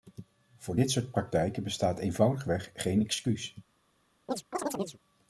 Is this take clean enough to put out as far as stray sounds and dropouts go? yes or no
no